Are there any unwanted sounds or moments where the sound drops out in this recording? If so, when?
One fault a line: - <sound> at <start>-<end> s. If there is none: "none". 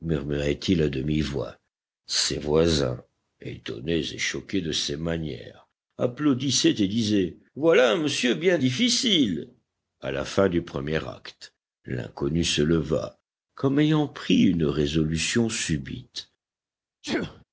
- sneeze at 17.0-17.4 s